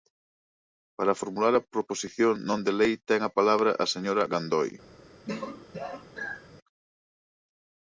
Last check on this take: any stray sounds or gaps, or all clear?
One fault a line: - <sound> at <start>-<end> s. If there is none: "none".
- throat clearing at 5.3-6.5 s